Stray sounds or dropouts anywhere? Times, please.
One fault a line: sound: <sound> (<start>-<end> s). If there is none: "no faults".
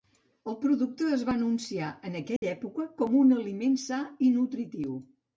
sound: dropout (2.4-2.4 s)